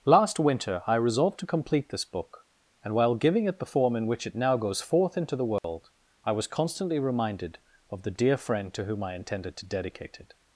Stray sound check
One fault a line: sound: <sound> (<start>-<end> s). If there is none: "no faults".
sound: dropout (5.6-5.6 s)